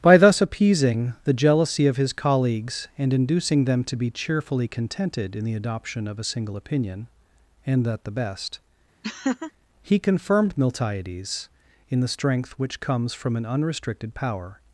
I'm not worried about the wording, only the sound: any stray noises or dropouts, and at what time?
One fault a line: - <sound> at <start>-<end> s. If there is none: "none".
- laugh at 9.0-9.5 s